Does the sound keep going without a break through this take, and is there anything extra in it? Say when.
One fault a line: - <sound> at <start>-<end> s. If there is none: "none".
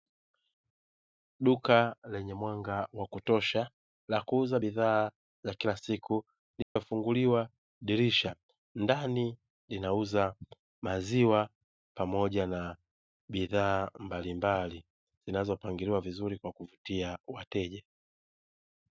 - dropout at 6.6-6.8 s